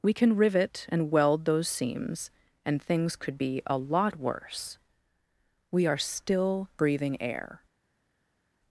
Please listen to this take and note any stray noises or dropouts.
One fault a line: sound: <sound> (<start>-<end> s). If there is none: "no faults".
no faults